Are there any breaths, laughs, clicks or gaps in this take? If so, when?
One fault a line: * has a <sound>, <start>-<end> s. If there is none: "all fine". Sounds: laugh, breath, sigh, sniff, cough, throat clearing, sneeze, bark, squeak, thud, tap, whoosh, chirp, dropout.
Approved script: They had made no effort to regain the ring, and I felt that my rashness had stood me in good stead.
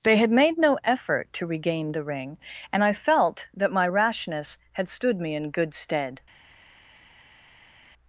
all fine